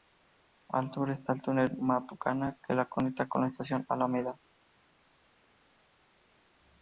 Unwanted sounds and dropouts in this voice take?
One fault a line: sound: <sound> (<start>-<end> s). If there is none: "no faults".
no faults